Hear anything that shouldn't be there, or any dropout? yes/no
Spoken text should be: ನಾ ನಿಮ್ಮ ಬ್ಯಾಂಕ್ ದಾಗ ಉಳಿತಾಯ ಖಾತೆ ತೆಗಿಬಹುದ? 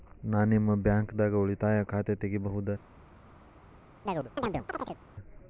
yes